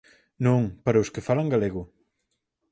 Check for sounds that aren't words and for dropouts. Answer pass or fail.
pass